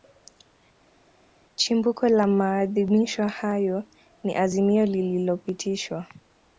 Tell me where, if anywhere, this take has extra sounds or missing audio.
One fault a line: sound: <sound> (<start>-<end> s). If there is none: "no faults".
no faults